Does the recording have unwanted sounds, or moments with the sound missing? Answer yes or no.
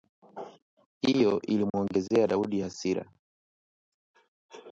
yes